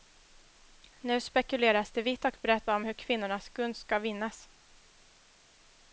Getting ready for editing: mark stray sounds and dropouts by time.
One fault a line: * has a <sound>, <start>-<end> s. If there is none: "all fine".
all fine